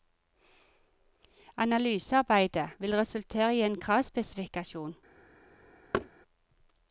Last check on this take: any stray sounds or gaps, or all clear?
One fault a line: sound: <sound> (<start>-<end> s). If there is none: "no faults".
sound: thud (5.9-6.1 s)